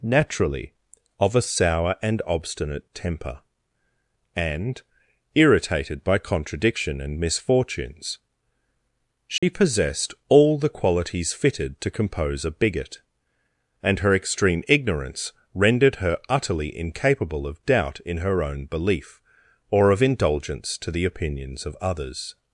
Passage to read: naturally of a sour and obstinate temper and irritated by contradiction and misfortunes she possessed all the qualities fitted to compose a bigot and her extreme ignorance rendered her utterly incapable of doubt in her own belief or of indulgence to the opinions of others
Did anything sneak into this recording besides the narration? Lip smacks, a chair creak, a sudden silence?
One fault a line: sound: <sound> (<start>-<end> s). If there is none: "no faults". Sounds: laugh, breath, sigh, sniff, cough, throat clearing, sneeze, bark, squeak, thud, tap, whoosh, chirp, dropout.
sound: dropout (9.4-9.4 s)